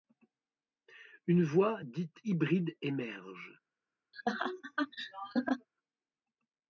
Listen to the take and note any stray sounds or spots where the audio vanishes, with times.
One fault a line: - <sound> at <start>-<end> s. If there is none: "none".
- laugh at 4.1-5.7 s